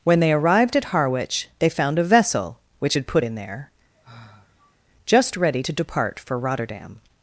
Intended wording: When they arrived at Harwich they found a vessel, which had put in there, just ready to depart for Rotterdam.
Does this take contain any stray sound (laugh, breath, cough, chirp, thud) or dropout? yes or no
yes